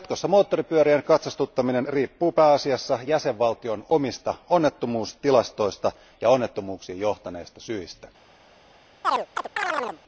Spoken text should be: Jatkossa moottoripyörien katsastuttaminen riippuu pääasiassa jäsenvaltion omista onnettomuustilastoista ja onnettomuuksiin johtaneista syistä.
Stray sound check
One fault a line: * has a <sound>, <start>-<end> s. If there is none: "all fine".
* has a chirp, 9.0-10.0 s